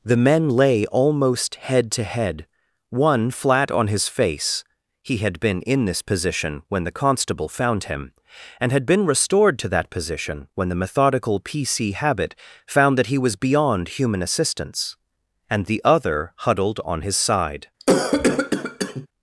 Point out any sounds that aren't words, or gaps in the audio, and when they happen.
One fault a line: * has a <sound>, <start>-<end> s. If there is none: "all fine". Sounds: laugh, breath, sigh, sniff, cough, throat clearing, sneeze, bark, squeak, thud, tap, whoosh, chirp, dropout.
* has a cough, 17.8-19.1 s